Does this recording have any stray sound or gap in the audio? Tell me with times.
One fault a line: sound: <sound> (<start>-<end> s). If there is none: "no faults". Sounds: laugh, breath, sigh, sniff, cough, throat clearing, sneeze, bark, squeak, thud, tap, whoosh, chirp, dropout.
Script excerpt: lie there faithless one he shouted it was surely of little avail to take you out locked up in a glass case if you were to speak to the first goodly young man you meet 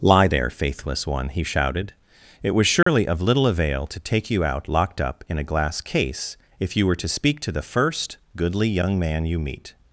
sound: dropout (2.8-2.9 s)